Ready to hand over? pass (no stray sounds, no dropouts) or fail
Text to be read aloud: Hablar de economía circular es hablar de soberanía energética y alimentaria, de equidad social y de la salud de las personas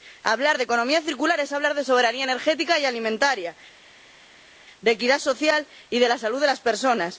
pass